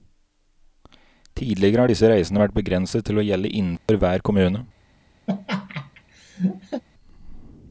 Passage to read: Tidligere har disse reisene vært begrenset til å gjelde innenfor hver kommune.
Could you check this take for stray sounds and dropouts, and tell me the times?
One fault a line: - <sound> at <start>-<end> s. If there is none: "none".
- dropout at 3.8-3.9 s
- laugh at 5.3-6.8 s